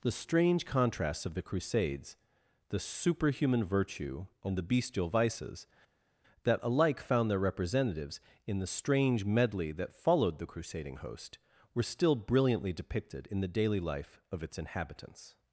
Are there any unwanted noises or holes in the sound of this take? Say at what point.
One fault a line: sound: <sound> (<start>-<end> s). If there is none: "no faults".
no faults